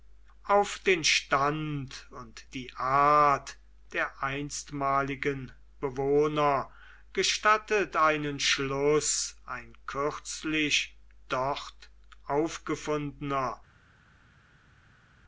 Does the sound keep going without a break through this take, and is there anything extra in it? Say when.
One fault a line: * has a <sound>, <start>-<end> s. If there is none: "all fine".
all fine